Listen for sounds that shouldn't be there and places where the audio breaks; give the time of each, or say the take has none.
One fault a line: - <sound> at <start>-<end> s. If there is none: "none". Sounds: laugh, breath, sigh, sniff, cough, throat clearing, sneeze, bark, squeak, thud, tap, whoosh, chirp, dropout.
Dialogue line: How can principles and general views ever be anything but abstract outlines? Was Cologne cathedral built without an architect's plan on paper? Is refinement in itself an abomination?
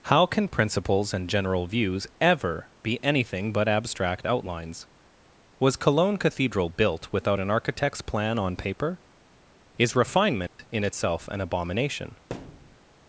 - dropout at 10.5-10.6 s
- thud at 12.3-12.8 s